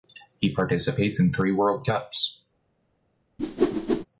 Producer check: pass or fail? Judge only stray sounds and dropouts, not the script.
fail